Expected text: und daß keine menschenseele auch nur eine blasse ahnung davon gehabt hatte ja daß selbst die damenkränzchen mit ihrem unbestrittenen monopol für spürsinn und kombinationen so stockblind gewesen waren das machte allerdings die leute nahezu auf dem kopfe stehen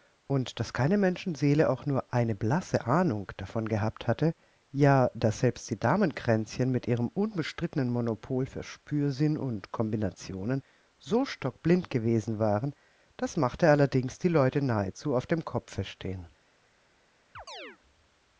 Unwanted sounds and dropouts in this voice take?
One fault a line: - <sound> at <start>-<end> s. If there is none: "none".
- chirp at 17.3-17.8 s